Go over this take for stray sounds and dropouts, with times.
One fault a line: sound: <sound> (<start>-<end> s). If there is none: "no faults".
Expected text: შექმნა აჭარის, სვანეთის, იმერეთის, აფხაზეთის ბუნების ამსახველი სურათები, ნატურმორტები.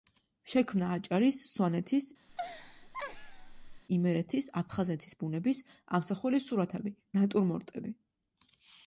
sound: laugh (2.3-3.8 s)